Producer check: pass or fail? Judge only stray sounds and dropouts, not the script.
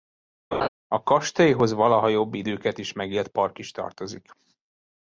fail